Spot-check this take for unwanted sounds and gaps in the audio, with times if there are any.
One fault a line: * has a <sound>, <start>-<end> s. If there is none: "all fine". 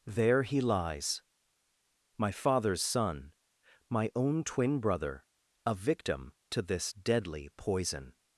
all fine